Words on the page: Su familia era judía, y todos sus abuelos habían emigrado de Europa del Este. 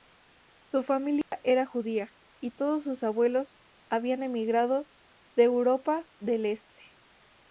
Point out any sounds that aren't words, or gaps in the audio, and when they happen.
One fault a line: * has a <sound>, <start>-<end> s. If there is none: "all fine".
* has a dropout, 1.2-1.3 s